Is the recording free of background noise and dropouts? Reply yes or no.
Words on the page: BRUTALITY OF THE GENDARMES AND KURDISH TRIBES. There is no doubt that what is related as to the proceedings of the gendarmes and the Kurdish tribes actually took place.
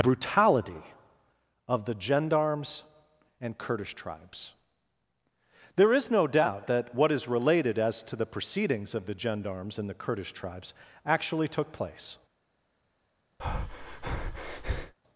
no